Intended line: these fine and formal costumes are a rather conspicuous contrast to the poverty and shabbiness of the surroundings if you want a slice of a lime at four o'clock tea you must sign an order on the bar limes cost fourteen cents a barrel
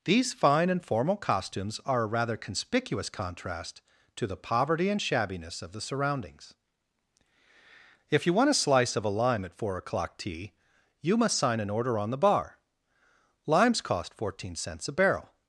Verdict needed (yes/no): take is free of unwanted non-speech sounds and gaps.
yes